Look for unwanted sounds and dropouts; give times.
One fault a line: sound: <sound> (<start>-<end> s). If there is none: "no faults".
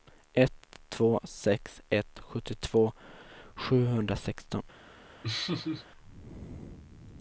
sound: laugh (5.2-5.9 s)